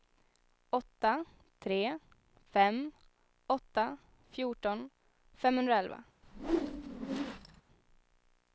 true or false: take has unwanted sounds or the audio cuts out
true